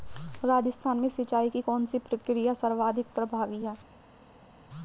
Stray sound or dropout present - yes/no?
no